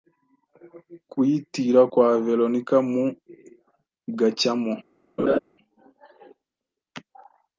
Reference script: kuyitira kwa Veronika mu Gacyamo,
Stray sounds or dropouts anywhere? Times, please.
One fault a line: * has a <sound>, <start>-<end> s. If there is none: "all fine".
* has a laugh, 5.2-5.4 s